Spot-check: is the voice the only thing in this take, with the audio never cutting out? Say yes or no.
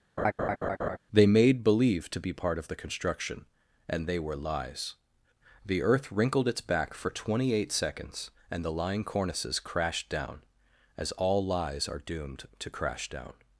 no